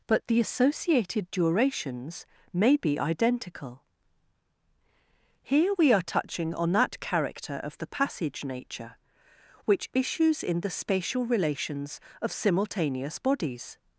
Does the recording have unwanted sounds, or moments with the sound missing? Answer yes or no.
no